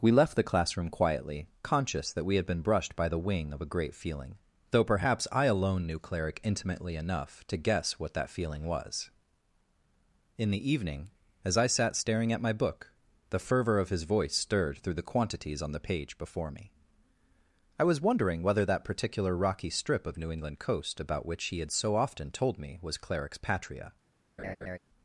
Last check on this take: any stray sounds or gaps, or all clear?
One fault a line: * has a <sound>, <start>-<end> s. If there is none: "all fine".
* has a laugh, 24.4-24.8 s